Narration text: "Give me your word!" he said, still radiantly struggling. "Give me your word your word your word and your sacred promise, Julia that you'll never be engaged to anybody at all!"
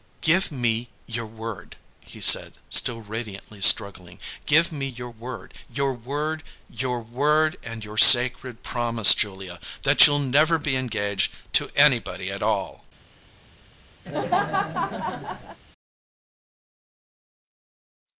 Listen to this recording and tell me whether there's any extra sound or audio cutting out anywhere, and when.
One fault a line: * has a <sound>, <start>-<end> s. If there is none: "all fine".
* has a laugh, 14.0-15.6 s